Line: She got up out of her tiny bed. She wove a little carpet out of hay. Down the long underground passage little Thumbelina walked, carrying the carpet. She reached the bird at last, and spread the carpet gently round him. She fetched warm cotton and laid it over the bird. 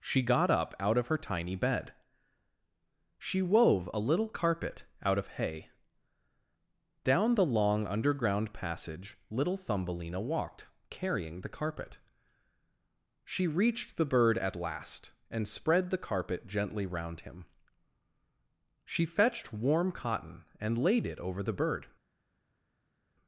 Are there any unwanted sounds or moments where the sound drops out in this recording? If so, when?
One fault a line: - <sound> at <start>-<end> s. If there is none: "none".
none